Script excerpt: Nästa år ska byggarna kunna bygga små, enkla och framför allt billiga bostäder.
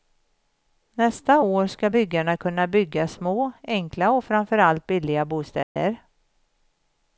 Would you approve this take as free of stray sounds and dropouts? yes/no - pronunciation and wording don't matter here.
no